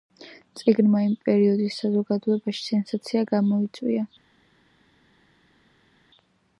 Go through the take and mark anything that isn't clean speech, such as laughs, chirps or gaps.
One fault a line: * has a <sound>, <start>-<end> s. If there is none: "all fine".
all fine